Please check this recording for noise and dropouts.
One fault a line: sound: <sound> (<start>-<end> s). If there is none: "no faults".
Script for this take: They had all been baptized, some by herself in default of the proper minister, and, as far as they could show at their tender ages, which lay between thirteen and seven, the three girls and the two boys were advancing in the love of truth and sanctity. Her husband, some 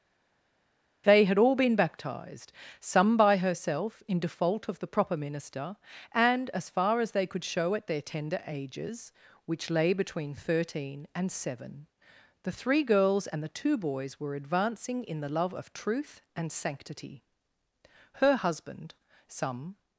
no faults